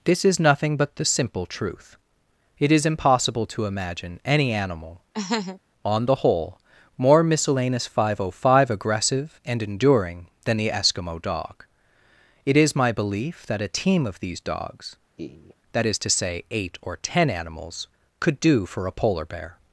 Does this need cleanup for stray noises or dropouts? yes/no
yes